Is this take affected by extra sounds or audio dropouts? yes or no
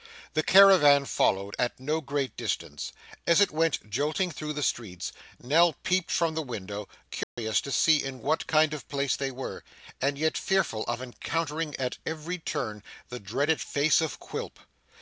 yes